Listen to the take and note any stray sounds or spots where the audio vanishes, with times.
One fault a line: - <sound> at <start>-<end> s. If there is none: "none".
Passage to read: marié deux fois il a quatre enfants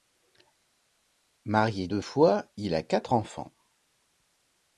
none